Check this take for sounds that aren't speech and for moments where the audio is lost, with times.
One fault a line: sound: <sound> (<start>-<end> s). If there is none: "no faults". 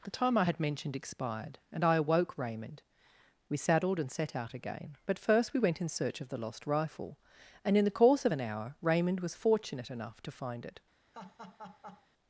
sound: laugh (11.1-12.1 s)